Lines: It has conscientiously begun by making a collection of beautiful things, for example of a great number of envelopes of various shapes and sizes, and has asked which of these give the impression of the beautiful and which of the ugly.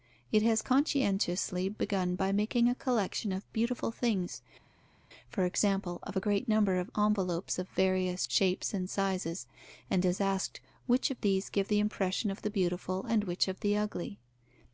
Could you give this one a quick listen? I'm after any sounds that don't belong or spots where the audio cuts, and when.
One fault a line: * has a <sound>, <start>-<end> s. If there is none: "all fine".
all fine